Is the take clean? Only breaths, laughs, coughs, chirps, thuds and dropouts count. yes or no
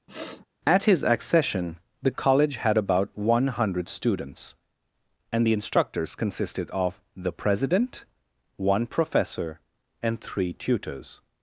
no